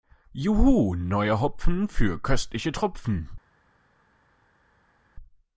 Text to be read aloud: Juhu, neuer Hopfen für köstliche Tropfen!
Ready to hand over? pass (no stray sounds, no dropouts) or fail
pass